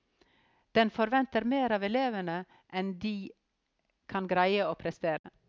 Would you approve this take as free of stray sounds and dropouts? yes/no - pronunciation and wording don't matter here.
no